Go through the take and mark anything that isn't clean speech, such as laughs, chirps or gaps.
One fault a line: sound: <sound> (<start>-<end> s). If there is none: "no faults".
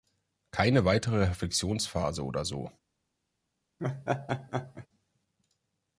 sound: laugh (3.8-4.9 s)